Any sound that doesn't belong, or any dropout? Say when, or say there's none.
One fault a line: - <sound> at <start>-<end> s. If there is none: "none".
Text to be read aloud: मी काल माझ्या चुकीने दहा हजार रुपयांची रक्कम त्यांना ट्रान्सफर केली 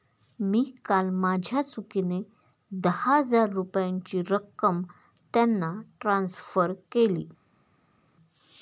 none